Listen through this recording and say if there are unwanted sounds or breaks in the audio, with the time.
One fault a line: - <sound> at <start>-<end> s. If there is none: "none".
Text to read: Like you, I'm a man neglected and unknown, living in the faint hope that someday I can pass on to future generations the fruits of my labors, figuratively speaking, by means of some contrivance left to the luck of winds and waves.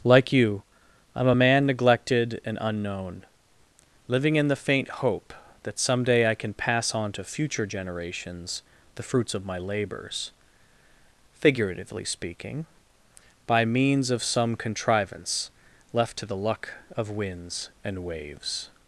none